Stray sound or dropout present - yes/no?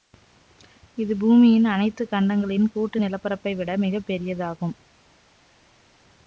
no